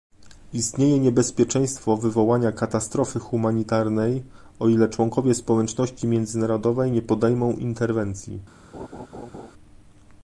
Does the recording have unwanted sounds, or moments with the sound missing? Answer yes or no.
yes